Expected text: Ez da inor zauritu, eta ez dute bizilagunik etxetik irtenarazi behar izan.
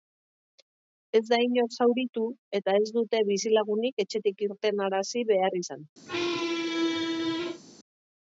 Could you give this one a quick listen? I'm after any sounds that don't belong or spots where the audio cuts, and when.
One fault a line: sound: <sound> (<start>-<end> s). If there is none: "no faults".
sound: squeak (6.1-7.6 s)